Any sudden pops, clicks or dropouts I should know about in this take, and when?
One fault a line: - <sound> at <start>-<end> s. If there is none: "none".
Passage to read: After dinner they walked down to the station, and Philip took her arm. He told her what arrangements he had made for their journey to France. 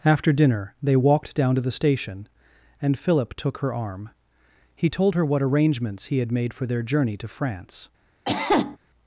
- cough at 8.3-8.8 s